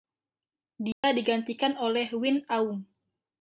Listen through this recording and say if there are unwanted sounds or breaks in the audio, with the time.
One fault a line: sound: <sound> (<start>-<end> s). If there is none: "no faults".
sound: dropout (0.9-1.0 s)